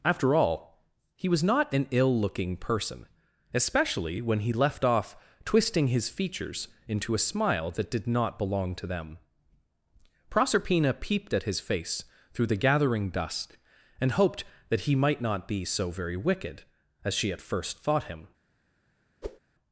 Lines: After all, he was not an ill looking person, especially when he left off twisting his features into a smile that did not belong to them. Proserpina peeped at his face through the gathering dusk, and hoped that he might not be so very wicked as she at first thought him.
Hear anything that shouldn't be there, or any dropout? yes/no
yes